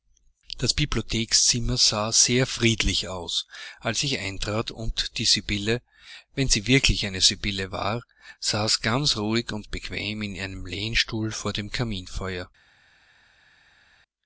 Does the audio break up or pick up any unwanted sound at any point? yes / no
no